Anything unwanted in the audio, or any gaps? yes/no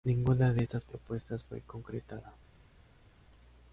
no